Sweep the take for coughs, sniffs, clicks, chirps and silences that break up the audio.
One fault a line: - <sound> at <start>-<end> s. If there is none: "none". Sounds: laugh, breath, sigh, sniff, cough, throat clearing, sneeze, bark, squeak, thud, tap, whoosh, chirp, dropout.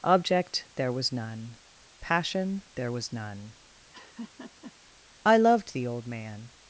- laugh at 3.9-4.7 s